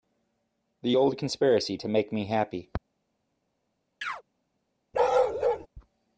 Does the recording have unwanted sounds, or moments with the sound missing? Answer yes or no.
yes